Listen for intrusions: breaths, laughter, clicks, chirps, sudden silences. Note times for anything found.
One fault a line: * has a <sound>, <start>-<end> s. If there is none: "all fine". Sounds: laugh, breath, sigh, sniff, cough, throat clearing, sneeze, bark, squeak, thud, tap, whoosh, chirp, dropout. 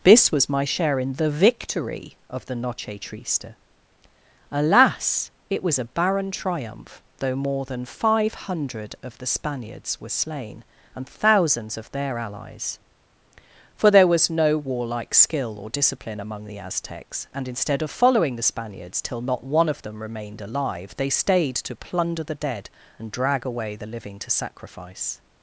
all fine